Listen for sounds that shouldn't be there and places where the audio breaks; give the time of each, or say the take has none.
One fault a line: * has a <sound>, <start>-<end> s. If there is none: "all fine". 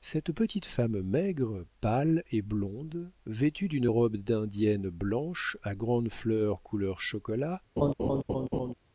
* has a laugh, 7.8-8.7 s